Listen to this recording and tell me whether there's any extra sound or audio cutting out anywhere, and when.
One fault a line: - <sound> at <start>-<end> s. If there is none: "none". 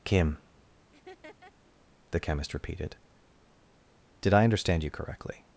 - laugh at 0.9-1.5 s